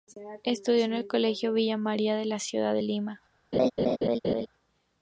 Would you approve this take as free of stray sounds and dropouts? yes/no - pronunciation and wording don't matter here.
no